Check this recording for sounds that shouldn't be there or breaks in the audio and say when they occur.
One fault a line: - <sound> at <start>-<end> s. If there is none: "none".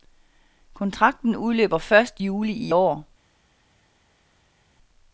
none